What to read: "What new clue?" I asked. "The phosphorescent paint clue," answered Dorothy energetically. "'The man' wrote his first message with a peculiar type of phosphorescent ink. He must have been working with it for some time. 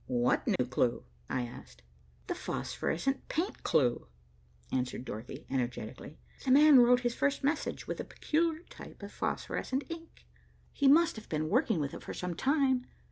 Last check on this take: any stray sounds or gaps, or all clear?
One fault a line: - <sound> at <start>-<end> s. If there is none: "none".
- dropout at 0.6-0.6 s